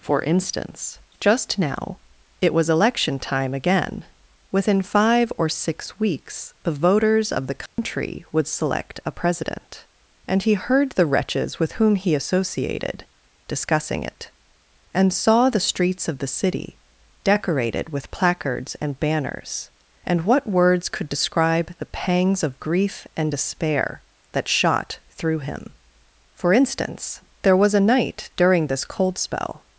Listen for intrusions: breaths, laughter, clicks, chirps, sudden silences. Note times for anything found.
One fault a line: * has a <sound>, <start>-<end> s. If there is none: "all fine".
* has a dropout, 7.7-7.8 s